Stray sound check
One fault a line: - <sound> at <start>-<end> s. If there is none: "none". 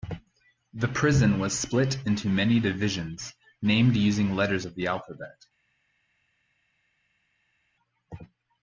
none